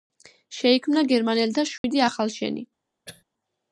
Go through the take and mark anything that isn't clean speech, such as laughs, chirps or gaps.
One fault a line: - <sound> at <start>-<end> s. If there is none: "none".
- dropout at 1.8-1.8 s
- throat clearing at 3.1-3.2 s